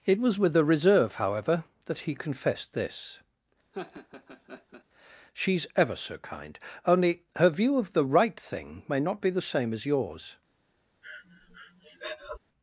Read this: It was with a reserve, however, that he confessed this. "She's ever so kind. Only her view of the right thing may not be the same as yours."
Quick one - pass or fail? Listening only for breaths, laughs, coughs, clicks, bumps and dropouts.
fail